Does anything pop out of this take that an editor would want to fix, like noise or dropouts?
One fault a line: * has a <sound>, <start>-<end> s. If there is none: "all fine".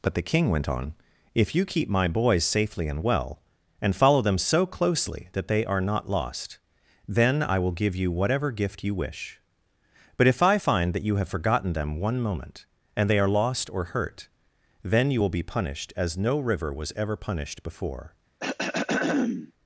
* has a throat clearing, 18.4-19.5 s